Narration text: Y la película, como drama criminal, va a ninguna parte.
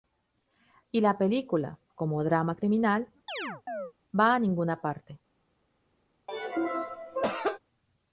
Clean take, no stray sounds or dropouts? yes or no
no